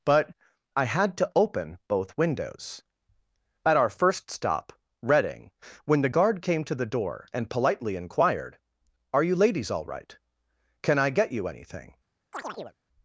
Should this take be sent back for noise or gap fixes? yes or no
yes